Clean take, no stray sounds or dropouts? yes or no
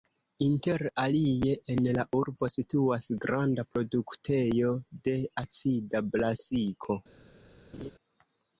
no